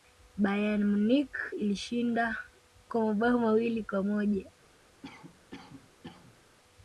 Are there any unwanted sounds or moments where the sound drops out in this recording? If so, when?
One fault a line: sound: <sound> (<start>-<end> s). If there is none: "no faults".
sound: cough (5.0-6.4 s)